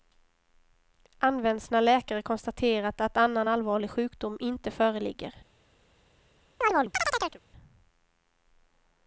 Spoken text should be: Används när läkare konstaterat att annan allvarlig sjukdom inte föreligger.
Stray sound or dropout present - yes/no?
yes